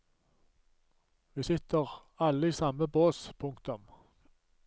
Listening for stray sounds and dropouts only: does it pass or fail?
pass